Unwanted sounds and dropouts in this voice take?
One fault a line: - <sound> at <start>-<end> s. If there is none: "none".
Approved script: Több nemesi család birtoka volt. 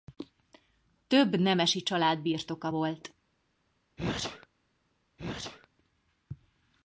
- sneeze at 4.0-4.5 s
- sneeze at 5.2-5.7 s